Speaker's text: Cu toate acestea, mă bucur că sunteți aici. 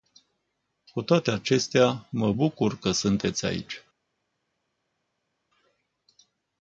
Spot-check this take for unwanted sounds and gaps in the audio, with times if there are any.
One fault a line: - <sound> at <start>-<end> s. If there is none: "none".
none